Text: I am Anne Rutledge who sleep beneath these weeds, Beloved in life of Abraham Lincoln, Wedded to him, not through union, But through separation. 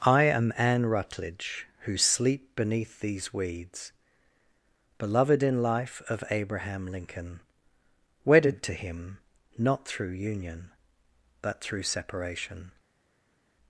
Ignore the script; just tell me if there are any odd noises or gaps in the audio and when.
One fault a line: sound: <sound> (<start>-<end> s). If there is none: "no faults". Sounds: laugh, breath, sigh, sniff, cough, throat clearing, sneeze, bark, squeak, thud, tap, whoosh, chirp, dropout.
no faults